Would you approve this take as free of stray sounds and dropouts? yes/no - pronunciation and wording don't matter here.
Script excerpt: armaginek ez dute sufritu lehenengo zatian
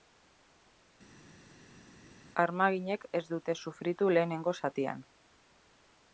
yes